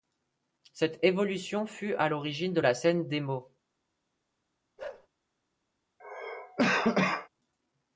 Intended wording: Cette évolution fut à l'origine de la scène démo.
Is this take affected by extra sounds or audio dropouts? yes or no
yes